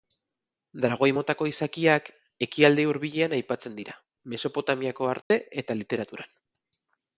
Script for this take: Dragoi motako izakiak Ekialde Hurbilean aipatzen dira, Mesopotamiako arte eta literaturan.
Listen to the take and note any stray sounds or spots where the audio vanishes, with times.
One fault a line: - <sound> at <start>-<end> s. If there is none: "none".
- dropout at 5.2-5.3 s